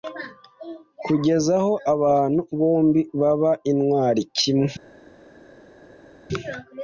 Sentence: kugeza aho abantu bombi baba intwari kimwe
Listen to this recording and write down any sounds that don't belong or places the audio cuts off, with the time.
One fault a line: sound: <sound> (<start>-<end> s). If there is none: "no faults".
no faults